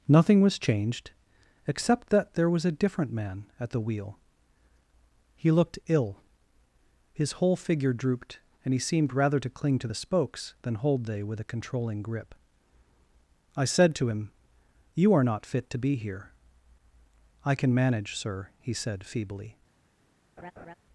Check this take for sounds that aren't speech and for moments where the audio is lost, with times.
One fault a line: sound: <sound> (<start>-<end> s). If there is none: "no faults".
sound: laugh (20.4-20.7 s)